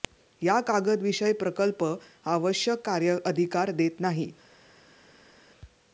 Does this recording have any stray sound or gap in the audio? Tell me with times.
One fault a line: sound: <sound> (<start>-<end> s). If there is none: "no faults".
no faults